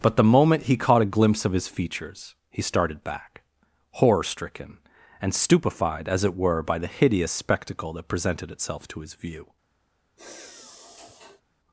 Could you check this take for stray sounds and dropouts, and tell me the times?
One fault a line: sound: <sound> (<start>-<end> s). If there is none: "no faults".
sound: sigh (10.2-11.4 s)